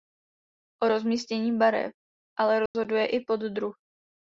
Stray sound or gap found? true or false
true